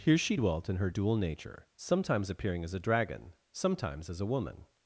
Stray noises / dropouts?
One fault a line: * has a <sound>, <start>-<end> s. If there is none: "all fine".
all fine